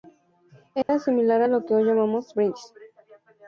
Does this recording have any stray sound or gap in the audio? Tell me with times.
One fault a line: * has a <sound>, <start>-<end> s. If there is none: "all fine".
* has a dropout, 0.8-0.9 s